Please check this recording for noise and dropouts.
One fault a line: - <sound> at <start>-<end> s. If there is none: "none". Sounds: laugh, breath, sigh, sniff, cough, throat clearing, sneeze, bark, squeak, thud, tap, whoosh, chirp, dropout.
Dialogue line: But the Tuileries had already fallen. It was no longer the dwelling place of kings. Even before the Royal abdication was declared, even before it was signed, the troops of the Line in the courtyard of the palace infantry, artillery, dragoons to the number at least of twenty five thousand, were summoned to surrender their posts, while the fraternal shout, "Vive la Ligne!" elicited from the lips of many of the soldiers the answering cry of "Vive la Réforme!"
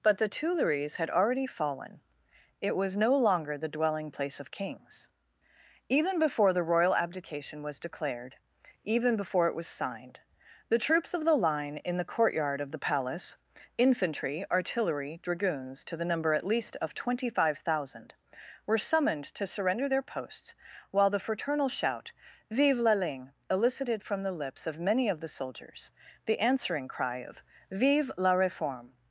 none